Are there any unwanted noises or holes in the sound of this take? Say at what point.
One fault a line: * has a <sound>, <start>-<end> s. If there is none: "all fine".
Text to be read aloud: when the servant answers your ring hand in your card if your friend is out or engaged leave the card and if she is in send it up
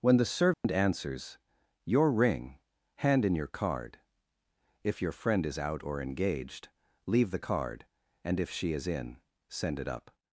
* has a dropout, 0.5-0.6 s